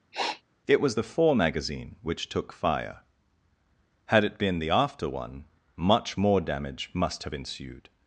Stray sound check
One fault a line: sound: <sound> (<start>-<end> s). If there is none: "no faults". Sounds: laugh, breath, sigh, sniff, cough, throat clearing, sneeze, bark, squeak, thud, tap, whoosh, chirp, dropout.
sound: sniff (0.1-0.4 s)